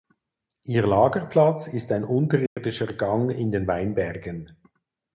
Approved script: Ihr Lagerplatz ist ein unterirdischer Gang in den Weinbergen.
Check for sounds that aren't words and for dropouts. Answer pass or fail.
fail